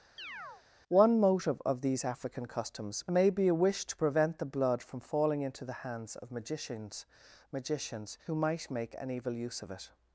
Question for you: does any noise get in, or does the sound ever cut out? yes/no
yes